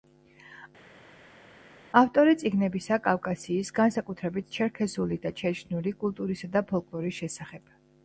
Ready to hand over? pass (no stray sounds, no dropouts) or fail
pass